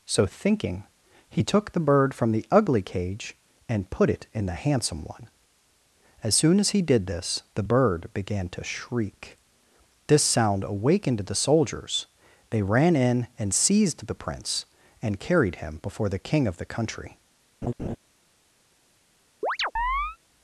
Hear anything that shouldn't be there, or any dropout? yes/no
yes